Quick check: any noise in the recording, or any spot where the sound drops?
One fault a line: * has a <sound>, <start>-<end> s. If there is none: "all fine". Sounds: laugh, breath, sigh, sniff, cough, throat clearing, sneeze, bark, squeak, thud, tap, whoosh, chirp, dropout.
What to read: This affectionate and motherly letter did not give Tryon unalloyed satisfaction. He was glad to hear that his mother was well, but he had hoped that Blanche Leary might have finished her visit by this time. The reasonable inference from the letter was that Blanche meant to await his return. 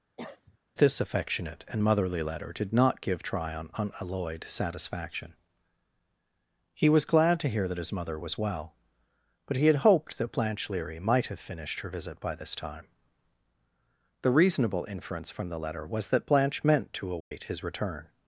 * has a cough, 0.2-0.6 s
* has a dropout, 17.2-17.3 s